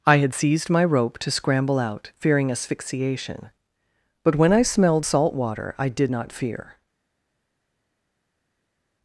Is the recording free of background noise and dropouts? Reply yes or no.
yes